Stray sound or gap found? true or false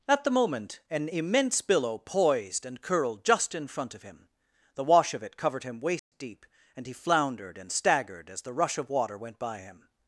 true